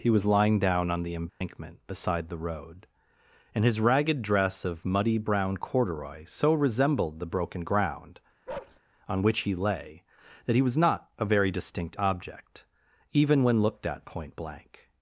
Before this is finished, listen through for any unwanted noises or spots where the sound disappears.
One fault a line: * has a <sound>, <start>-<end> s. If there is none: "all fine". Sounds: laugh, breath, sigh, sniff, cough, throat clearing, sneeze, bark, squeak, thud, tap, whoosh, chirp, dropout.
* has a dropout, 1.3-1.4 s
* has a bark, 8.5-8.8 s